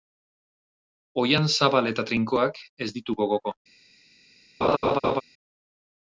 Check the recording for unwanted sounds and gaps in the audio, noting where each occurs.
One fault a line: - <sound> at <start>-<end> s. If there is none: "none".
- laugh at 4.6-5.2 s